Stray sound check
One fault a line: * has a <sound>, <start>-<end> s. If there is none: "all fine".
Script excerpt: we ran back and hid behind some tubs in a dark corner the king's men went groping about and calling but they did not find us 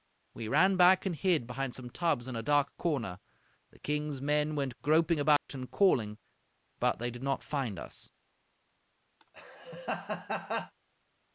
* has a dropout, 5.4-5.5 s
* has a laugh, 9.2-10.7 s